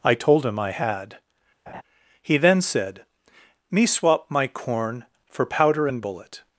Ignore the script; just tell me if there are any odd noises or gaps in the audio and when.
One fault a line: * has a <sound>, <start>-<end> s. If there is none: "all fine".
* has a laugh, 1.7-1.8 s